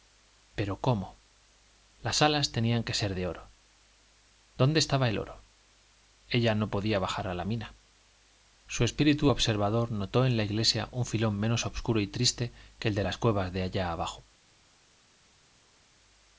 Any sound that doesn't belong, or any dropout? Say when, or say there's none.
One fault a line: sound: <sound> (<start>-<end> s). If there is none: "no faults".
no faults